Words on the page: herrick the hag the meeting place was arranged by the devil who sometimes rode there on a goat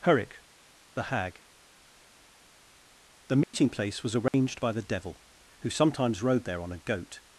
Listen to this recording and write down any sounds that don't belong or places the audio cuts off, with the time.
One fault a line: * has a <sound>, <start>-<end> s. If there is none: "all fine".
* has a dropout, 3.4-3.5 s
* has a dropout, 4.3-4.3 s